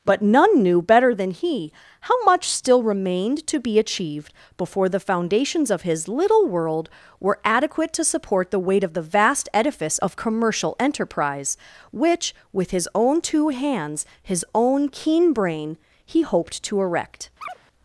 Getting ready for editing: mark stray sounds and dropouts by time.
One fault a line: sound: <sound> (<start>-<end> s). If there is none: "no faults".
sound: chirp (17.4-17.6 s)